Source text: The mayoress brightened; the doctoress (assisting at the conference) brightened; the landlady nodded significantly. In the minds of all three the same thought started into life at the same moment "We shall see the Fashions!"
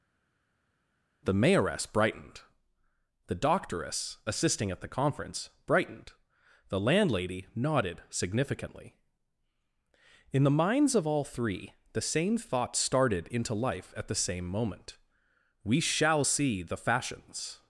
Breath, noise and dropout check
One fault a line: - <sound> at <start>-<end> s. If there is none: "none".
none